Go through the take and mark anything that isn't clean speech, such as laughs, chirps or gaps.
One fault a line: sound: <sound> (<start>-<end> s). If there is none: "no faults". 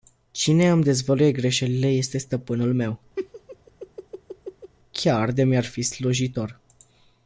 sound: laugh (3.2-4.7 s)